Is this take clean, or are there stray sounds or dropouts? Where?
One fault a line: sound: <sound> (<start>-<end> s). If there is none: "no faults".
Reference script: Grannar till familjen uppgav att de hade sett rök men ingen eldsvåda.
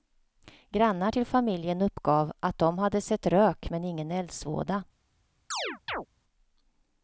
sound: chirp (5.5-6.1 s)